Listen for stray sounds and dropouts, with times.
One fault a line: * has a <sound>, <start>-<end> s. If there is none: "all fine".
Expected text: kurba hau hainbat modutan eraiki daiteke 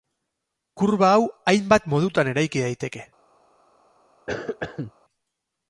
* has a cough, 4.3-4.9 s